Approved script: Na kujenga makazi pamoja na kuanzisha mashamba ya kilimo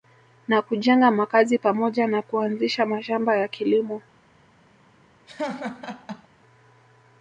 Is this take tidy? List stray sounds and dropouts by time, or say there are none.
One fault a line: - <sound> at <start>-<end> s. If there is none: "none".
- laugh at 5.3-6.3 s